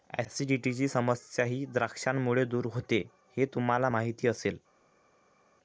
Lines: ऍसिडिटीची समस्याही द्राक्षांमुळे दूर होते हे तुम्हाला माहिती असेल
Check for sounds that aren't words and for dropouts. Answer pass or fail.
pass